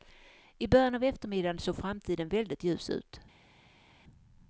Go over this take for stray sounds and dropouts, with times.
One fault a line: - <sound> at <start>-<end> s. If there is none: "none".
none